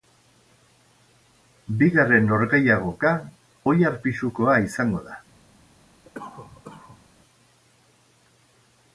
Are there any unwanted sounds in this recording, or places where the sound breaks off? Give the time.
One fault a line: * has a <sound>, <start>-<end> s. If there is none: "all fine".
* has a cough, 6.0-7.1 s